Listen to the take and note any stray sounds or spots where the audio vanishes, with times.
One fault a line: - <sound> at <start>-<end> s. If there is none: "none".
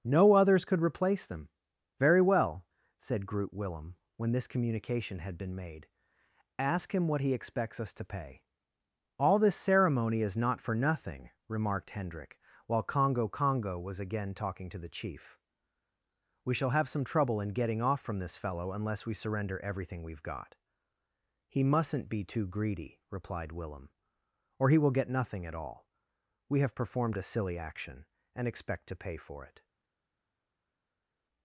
none